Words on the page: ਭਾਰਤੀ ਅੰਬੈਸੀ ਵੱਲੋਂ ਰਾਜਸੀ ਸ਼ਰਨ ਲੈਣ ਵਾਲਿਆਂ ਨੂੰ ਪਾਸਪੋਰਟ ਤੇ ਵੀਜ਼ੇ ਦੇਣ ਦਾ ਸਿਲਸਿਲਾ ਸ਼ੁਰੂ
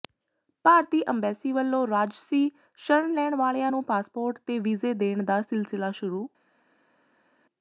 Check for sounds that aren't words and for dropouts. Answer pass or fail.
pass